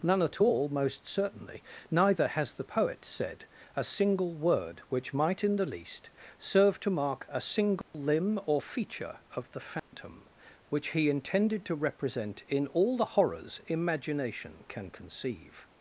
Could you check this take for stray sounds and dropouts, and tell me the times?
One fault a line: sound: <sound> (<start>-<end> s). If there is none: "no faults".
sound: dropout (7.8-7.9 s)
sound: dropout (9.8-9.9 s)